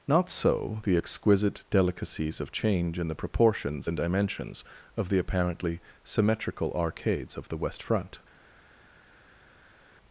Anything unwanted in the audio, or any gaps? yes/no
no